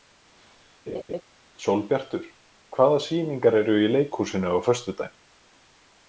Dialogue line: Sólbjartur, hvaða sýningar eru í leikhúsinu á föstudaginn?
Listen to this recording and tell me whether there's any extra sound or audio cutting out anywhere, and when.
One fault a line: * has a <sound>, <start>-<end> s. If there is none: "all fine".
* has a laugh, 0.9-1.2 s